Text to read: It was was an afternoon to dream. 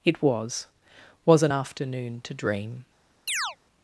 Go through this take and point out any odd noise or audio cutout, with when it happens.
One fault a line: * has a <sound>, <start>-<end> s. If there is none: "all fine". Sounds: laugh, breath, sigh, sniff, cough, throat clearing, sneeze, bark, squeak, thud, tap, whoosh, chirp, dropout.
* has a chirp, 3.3-3.6 s